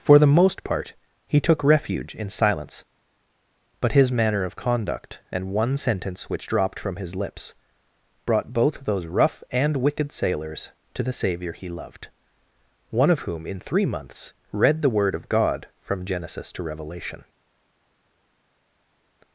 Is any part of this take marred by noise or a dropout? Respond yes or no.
no